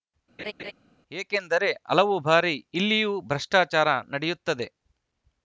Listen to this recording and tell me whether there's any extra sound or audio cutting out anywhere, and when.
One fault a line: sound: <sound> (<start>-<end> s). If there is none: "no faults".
sound: laugh (0.4-0.7 s)